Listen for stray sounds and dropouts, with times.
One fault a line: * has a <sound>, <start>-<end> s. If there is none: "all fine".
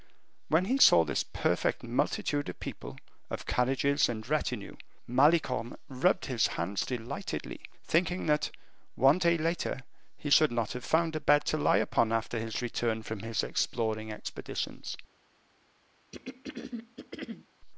* has a throat clearing, 16.1-17.5 s